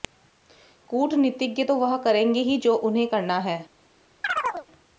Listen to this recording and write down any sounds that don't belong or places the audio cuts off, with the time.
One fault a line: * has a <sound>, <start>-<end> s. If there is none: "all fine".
* has a chirp, 4.2-4.7 s